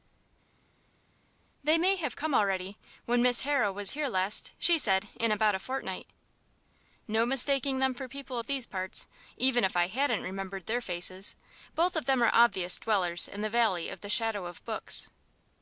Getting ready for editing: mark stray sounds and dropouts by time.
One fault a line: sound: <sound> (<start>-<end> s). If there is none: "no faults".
no faults